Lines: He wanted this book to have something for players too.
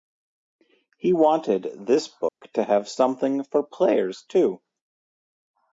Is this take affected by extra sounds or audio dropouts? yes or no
yes